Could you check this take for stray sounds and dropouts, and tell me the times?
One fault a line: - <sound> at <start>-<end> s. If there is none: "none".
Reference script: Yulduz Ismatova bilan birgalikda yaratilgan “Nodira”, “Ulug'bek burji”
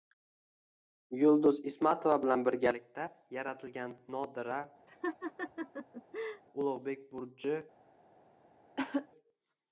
- laugh at 4.9-6.4 s
- cough at 8.8-9.1 s